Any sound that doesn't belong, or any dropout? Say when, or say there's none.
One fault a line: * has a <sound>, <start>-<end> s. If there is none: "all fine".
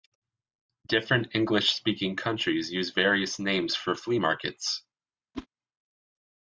* has a whoosh, 5.3-5.5 s